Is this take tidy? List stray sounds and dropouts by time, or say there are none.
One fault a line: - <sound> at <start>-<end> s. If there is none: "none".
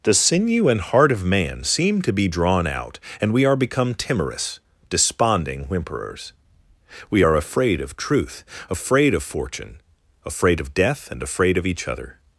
none